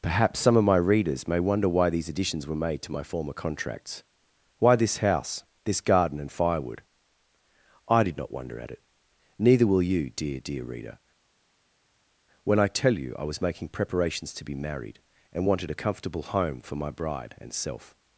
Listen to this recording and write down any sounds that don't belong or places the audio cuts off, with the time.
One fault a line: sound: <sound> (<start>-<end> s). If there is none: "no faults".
no faults